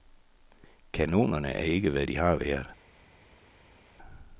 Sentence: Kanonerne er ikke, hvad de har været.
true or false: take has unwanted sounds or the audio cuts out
false